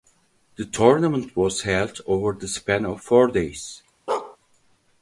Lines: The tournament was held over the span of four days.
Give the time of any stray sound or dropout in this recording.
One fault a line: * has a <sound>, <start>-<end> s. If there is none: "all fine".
* has a bark, 4.1-4.4 s